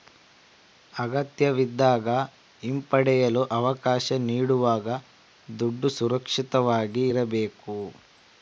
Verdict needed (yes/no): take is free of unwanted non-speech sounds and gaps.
yes